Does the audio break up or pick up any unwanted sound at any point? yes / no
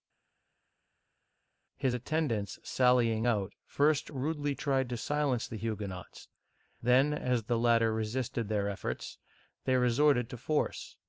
no